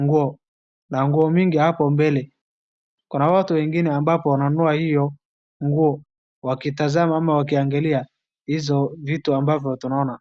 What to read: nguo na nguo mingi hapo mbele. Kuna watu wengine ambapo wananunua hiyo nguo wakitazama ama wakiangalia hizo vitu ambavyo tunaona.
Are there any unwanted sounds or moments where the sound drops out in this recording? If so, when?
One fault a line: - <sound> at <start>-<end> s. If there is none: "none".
none